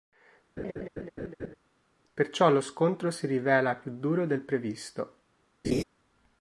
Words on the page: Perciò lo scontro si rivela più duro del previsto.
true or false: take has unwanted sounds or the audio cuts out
true